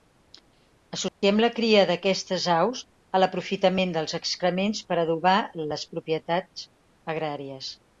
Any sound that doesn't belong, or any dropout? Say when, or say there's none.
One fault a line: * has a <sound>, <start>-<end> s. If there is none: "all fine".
* has a dropout, 1.1-1.2 s